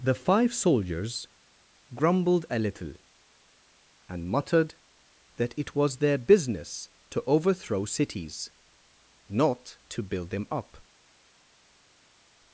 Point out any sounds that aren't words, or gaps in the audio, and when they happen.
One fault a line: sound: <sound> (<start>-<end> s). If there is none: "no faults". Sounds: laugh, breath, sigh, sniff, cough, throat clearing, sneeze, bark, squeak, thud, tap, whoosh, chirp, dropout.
no faults